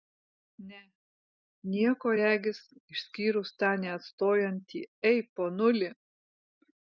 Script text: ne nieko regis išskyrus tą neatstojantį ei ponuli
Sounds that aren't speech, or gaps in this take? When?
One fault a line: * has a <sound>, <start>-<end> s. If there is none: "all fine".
all fine